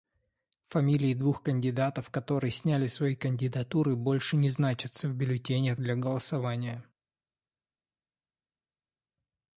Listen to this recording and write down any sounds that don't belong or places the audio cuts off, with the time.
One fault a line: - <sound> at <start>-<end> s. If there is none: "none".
none